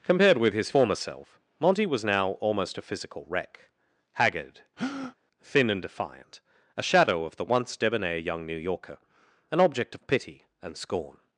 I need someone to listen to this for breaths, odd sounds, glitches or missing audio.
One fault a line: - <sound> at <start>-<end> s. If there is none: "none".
- breath at 4.8-5.2 s